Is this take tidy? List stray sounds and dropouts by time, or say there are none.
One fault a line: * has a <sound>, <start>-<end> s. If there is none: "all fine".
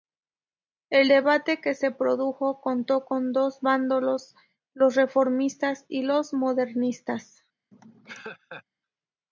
* has a laugh, 7.7-8.6 s